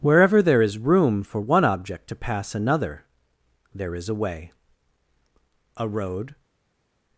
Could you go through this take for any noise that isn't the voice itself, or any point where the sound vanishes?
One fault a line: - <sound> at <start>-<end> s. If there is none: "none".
none